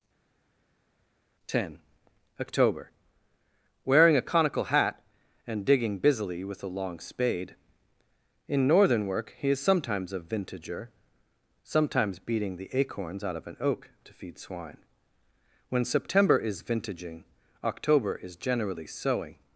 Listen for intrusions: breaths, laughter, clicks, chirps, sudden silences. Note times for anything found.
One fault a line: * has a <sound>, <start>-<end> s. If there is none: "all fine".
all fine